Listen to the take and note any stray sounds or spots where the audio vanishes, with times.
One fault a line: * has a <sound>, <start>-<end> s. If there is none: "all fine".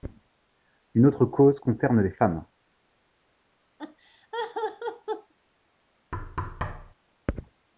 * has a laugh, 3.8-5.3 s
* has a thud, 6.1-6.9 s